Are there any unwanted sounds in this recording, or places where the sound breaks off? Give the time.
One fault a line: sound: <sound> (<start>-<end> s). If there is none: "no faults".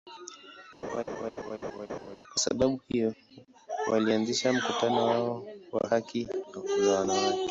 sound: laugh (0.8-2.2 s)